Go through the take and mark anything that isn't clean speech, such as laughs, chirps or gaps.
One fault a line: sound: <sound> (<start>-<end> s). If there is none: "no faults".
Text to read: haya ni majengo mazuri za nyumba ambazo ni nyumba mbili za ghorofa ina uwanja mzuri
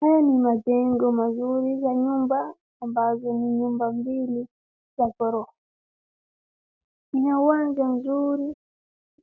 no faults